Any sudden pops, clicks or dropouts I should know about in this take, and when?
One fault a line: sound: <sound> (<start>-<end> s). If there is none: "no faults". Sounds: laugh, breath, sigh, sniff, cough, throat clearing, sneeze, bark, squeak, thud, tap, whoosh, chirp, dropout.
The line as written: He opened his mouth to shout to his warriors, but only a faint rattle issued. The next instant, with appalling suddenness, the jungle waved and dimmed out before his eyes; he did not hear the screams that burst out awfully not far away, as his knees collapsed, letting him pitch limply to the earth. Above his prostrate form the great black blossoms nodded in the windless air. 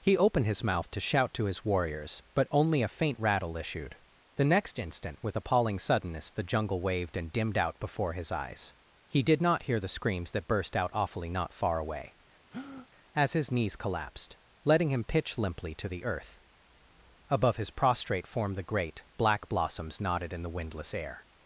sound: breath (12.5-12.9 s)